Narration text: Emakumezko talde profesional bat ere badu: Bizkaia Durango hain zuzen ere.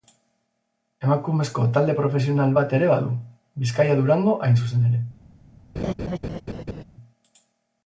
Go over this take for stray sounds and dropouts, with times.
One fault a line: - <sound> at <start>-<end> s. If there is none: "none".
- laugh at 5.8-6.8 s